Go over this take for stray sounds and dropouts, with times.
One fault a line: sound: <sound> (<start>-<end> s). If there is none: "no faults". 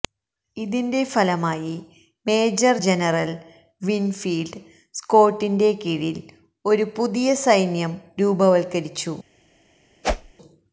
sound: whoosh (10.0-10.3 s)